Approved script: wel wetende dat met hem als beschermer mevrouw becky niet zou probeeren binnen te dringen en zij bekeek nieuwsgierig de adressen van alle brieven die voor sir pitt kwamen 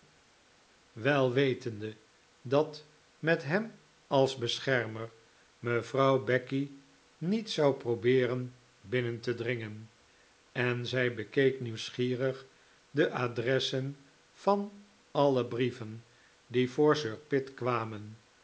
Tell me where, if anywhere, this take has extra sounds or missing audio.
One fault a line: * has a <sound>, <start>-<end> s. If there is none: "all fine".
all fine